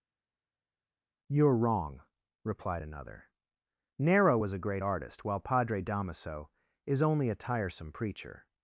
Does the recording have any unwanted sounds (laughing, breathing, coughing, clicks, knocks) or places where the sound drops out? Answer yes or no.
no